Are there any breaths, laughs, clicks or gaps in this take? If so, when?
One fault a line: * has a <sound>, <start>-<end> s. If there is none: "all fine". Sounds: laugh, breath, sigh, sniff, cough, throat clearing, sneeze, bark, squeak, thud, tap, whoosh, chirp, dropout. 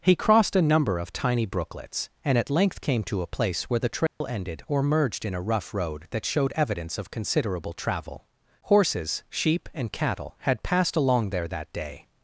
* has a dropout, 4.1-4.2 s